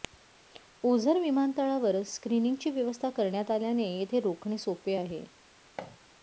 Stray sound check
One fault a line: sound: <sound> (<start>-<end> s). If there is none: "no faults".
sound: thud (5.8-6.0 s)